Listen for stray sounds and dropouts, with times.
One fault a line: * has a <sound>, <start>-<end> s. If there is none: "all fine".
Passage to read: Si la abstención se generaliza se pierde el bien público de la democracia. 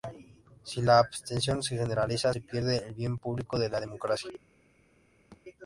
* has a thud, 5.3-5.4 s